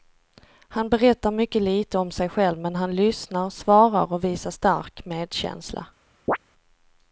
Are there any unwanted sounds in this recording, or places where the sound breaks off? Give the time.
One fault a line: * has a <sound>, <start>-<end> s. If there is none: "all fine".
* has a chirp, 6.3-6.4 s